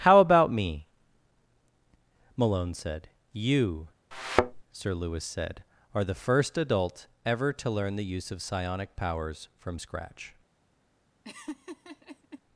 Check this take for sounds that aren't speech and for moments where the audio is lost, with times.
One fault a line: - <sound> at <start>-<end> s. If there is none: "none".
- thud at 4.1-4.6 s
- laugh at 11.2-12.4 s